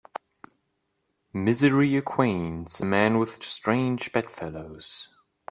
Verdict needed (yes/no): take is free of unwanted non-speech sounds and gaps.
yes